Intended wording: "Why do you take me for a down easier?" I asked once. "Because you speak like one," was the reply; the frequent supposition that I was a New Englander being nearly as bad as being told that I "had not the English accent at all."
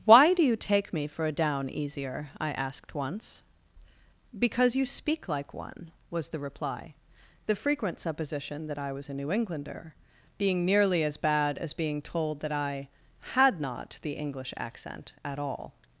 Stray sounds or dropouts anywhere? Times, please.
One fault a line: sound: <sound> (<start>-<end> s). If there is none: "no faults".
no faults